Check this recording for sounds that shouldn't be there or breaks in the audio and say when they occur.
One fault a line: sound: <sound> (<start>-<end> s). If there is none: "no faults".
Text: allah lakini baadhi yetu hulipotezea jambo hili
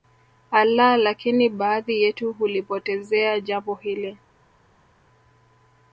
no faults